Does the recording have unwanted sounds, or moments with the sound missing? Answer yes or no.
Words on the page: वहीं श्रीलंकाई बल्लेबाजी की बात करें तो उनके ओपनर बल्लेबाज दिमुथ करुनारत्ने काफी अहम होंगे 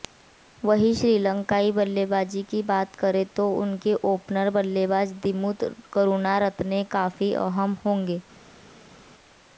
no